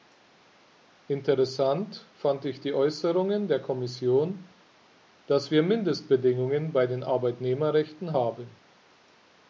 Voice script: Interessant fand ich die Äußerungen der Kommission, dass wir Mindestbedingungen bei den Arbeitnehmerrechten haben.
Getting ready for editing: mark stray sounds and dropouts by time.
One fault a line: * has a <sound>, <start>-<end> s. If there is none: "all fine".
all fine